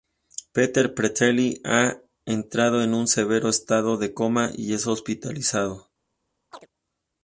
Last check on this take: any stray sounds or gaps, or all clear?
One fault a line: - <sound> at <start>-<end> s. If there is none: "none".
- chirp at 6.5-6.7 s